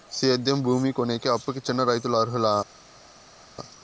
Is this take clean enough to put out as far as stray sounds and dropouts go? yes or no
yes